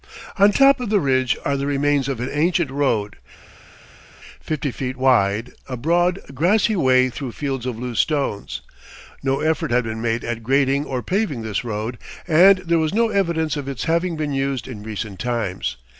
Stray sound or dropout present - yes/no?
no